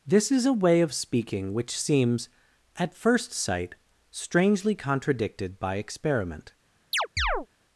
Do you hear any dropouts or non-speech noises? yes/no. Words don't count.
yes